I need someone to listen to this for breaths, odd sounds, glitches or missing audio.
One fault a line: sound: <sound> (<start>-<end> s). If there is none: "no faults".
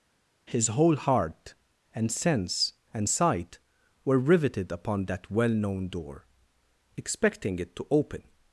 no faults